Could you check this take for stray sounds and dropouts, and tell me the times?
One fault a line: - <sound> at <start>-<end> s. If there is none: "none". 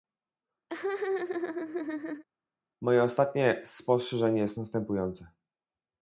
- laugh at 0.7-2.2 s